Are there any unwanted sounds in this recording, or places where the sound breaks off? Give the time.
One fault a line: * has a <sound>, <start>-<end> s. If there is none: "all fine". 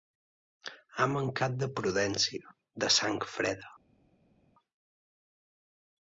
all fine